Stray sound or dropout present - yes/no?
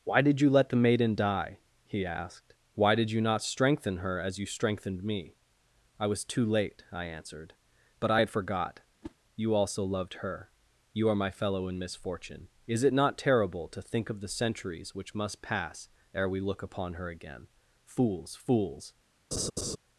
yes